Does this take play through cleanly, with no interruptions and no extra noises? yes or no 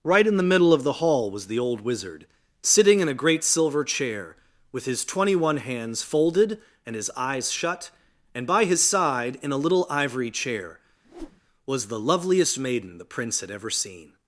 no